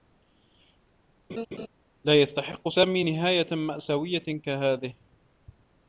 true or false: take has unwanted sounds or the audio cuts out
true